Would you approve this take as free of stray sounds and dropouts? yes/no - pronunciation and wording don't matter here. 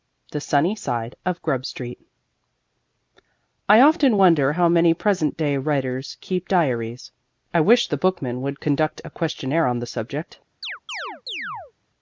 no